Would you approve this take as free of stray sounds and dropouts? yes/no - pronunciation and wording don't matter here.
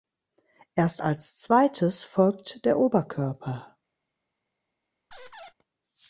no